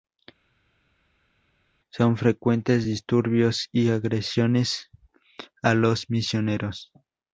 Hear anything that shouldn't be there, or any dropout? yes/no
no